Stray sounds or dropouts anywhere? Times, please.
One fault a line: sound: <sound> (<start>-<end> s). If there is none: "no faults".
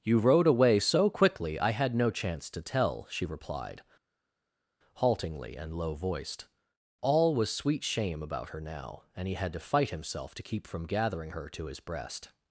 no faults